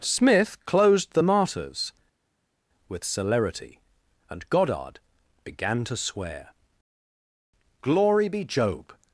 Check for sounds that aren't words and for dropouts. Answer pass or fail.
pass